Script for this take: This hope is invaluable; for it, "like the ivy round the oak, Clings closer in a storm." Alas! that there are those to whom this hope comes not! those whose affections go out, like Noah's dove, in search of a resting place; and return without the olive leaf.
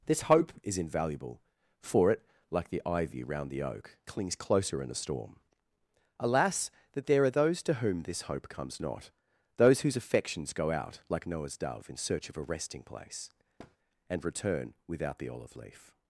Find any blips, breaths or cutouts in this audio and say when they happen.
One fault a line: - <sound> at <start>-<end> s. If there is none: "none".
- thud at 13.6-13.8 s